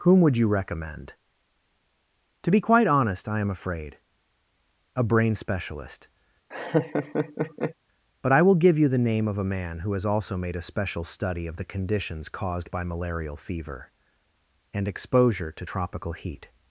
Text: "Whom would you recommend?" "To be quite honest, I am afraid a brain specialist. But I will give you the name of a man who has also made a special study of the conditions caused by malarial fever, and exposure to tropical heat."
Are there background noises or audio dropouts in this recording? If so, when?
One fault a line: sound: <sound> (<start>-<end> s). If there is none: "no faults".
sound: laugh (6.5-7.7 s)